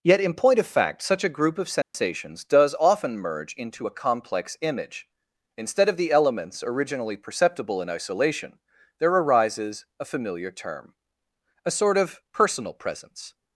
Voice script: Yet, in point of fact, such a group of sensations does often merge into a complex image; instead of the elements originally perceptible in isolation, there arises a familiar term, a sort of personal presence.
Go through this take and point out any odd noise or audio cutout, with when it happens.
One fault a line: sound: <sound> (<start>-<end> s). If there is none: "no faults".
sound: dropout (1.8-1.9 s)